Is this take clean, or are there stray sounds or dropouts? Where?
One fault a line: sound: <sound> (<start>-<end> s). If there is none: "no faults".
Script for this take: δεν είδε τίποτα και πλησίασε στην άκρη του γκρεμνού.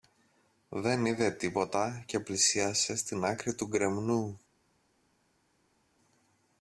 no faults